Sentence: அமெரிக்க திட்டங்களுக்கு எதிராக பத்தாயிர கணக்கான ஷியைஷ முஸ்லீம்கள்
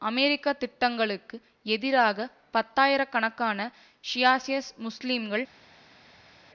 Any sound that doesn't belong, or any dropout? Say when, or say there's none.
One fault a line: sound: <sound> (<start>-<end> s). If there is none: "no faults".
no faults